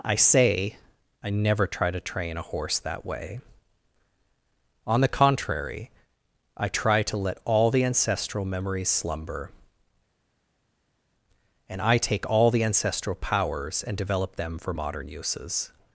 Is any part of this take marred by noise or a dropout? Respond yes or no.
no